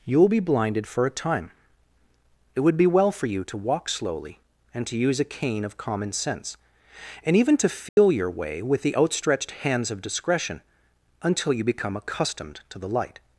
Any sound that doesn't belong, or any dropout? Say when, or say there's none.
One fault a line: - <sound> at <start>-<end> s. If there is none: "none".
- dropout at 7.9-8.0 s